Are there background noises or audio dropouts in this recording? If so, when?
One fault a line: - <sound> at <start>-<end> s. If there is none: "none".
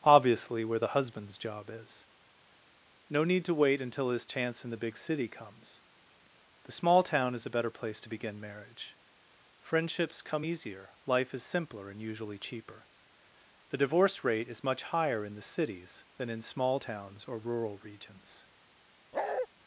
- bark at 19.1-19.5 s